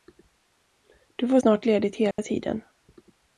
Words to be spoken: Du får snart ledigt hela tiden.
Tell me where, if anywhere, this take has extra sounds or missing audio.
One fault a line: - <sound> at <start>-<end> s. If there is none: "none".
- dropout at 2.1-2.2 s